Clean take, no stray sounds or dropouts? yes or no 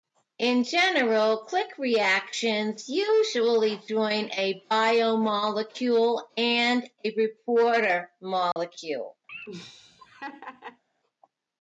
no